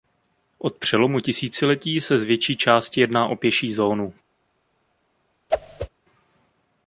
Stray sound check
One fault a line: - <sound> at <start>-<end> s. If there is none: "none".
- whoosh at 5.5-5.9 s